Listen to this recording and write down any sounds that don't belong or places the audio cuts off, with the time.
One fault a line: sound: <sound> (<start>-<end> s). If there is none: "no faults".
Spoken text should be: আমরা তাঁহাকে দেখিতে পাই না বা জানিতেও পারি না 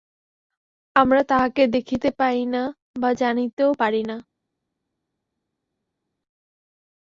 no faults